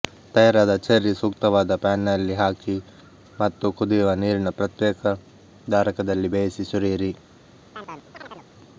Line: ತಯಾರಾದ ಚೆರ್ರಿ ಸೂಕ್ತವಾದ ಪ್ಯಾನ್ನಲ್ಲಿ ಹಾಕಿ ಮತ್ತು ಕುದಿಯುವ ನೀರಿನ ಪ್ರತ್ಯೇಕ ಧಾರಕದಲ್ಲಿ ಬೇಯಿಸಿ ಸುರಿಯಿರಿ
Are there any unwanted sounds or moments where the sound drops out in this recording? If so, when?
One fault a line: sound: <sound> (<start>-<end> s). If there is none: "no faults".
sound: chirp (7.7-8.5 s)